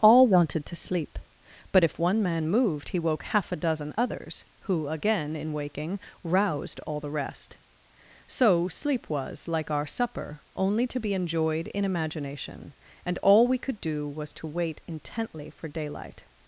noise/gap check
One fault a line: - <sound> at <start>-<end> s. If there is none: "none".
none